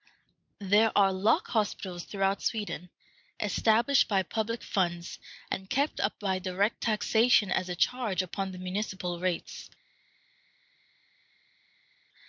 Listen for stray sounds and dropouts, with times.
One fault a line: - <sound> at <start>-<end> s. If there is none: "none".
none